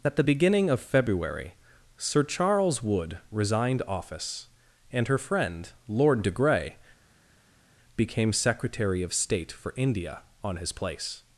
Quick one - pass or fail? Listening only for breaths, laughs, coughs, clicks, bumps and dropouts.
pass